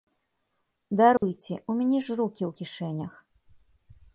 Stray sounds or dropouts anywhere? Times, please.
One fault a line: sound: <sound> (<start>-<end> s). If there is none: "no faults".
sound: dropout (1.2-1.2 s)